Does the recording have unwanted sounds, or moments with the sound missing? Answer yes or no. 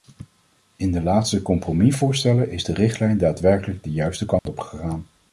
yes